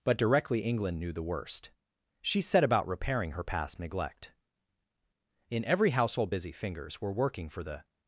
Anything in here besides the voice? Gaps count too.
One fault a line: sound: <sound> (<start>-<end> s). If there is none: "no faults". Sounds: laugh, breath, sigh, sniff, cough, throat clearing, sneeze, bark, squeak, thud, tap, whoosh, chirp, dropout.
no faults